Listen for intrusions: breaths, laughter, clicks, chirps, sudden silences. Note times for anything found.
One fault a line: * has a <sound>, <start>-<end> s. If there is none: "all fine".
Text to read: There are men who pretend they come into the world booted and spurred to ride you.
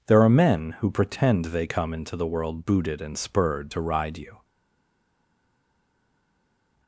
all fine